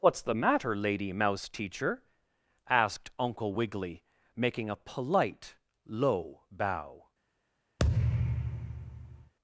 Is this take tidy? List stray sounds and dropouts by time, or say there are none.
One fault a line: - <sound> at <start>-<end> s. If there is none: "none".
- thud at 7.8-9.3 s